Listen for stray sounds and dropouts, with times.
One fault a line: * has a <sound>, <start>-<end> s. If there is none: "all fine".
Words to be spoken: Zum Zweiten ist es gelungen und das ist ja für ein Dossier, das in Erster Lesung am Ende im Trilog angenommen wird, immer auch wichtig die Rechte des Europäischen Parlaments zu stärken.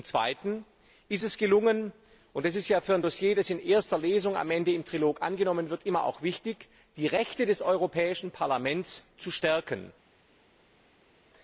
all fine